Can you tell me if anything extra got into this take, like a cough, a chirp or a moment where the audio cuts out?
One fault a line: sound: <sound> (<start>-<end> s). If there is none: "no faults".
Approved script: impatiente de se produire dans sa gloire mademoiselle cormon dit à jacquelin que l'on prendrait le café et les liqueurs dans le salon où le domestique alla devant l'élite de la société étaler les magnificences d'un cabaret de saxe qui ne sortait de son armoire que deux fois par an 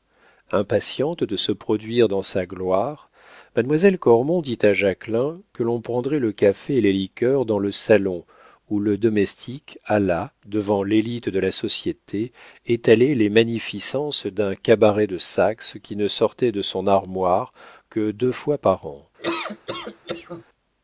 sound: laugh (19.2-20.4 s)